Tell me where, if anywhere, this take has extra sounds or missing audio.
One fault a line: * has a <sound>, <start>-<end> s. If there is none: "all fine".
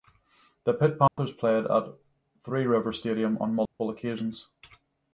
* has a dropout, 1.1-1.2 s
* has a dropout, 3.7-3.8 s